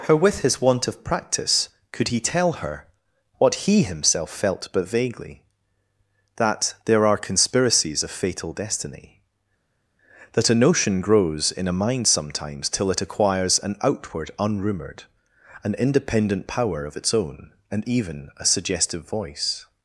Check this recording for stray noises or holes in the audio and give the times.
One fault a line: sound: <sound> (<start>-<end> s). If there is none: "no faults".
no faults